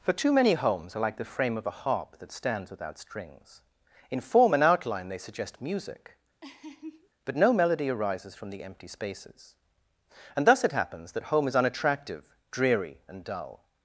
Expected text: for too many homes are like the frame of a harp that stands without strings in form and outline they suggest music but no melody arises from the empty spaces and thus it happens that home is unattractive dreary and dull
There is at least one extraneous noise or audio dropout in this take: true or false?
true